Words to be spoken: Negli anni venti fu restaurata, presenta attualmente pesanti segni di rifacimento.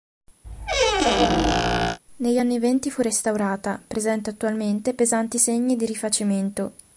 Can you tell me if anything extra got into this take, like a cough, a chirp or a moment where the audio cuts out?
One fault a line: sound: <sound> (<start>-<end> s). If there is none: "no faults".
sound: squeak (0.4-2.0 s)